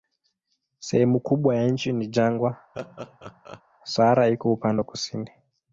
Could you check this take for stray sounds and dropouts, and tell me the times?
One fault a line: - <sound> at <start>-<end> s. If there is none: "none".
- laugh at 2.7-3.6 s